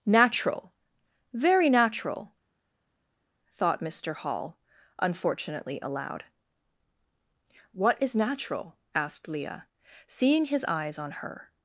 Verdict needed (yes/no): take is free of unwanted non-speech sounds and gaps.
yes